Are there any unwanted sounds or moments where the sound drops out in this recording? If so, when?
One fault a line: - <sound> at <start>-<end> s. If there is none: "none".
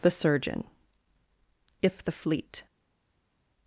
none